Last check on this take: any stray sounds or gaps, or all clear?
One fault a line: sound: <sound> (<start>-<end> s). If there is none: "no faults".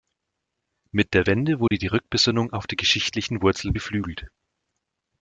sound: dropout (1.7-1.7 s)